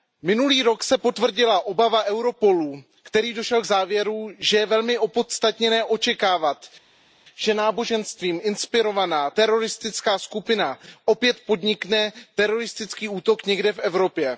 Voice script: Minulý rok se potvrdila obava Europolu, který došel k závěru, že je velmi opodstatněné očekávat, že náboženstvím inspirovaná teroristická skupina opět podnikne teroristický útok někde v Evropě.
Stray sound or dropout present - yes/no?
no